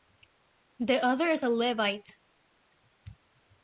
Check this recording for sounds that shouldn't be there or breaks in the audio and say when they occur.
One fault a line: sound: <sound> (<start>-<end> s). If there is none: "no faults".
no faults